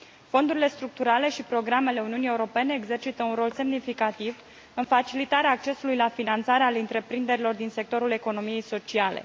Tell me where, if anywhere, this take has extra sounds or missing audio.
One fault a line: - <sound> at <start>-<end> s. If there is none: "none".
none